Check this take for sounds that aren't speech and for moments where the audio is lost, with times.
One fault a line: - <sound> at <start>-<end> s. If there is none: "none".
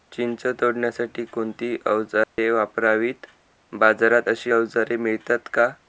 - dropout at 2.2-2.4 s